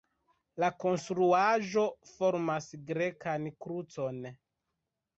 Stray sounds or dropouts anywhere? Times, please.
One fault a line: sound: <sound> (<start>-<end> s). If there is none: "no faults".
no faults